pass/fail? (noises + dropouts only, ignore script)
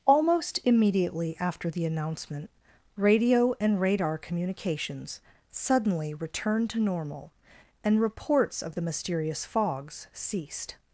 pass